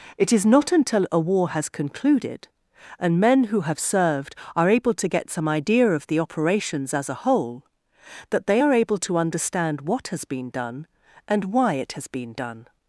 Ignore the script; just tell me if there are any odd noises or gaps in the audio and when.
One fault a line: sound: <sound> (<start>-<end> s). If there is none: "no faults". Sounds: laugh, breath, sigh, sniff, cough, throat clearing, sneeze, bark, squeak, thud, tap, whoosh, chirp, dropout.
no faults